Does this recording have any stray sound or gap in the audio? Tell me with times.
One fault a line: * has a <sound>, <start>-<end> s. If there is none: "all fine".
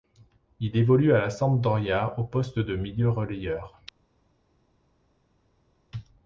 all fine